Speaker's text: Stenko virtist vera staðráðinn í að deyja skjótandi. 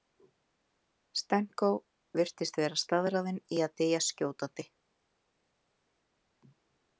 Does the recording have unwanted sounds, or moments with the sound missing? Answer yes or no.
no